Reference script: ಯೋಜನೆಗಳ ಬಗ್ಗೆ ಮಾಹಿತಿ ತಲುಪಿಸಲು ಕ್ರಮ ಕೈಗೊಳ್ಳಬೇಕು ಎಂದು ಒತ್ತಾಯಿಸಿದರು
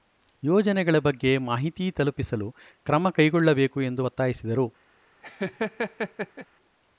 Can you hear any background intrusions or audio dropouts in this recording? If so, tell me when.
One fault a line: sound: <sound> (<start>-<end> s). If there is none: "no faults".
sound: laugh (5.2-6.5 s)